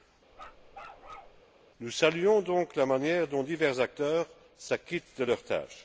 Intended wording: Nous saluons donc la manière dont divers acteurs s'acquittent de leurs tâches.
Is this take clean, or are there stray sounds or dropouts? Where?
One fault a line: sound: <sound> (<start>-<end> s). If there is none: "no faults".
sound: bark (0.3-1.4 s)